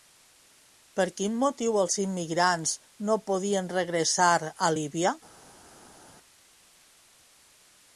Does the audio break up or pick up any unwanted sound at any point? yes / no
no